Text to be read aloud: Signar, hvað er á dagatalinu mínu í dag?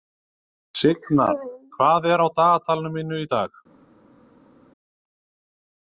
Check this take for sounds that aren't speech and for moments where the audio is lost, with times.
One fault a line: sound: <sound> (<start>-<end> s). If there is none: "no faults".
no faults